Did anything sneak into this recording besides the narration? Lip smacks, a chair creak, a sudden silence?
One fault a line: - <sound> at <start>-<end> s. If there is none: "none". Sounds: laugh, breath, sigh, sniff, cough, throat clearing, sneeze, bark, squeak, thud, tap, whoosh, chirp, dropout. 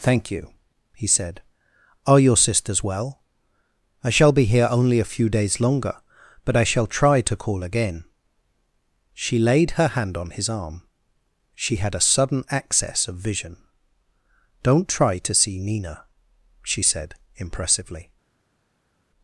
none